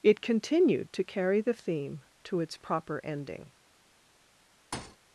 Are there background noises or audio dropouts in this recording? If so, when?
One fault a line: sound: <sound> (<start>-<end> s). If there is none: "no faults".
sound: thud (4.7-5.0 s)